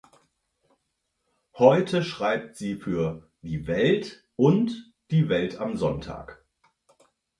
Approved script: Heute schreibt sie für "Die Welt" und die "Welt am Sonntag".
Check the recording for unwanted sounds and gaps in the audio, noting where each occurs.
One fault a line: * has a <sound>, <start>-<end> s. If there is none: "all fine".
all fine